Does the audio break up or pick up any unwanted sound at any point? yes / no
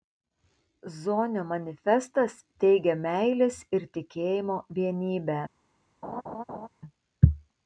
yes